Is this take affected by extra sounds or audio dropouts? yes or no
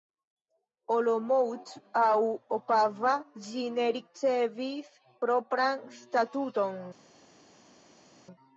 no